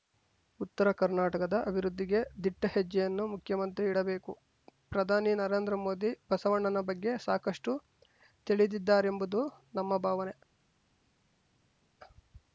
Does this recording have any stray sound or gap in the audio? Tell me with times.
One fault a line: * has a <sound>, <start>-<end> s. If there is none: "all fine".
all fine